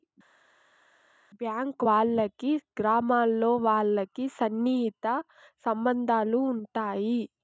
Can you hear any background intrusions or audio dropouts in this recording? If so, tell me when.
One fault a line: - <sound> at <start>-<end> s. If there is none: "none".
none